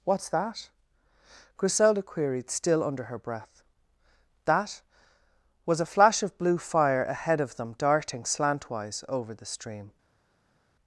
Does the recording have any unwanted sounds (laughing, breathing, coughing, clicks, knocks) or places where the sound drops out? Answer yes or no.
no